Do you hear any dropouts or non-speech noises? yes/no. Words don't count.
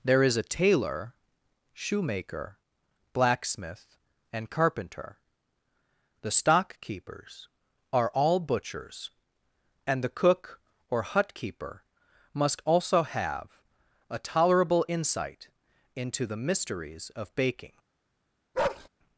yes